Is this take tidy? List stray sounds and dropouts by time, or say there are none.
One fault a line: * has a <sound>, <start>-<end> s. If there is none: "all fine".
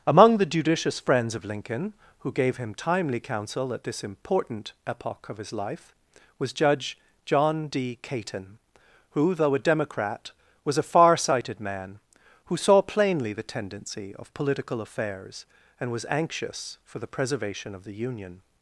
all fine